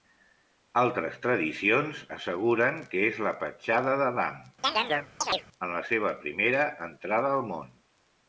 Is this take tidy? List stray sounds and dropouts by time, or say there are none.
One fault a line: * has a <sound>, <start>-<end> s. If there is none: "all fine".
* has a chirp, 4.6-5.5 s